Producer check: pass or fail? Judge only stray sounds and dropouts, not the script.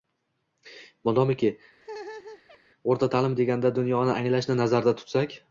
fail